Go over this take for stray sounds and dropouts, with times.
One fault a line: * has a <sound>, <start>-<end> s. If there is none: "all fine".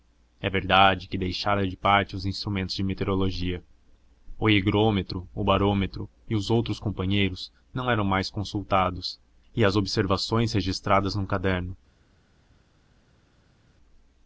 all fine